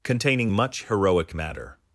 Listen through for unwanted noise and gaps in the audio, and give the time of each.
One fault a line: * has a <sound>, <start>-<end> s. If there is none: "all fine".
all fine